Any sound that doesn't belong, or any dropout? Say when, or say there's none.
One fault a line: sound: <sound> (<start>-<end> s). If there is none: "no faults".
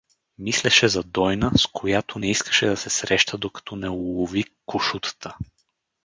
no faults